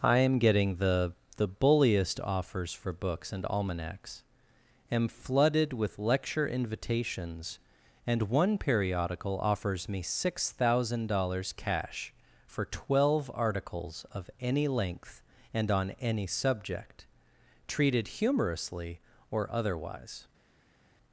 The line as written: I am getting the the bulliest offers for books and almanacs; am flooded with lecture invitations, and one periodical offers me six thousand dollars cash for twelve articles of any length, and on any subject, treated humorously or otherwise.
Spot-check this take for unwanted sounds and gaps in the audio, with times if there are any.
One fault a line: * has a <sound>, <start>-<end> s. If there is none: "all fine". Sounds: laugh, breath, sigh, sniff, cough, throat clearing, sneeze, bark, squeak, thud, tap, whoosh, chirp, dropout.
all fine